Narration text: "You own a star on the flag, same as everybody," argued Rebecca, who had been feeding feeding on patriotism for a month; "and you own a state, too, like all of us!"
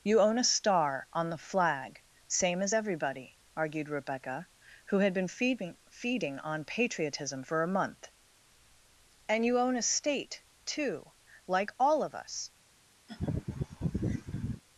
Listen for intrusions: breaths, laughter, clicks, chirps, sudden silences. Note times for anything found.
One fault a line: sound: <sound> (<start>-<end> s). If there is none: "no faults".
sound: laugh (13.1-14.6 s)